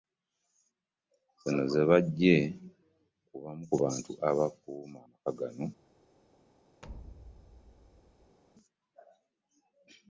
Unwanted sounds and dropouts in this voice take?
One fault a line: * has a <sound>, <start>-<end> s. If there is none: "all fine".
* has a thud, 6.8-8.4 s